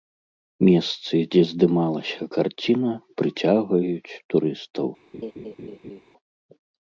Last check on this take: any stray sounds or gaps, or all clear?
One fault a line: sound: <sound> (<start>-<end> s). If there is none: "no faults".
sound: laugh (5.1-6.0 s)